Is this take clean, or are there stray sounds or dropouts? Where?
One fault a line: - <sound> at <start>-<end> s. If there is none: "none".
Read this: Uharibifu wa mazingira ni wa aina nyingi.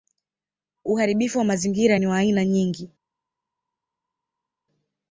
none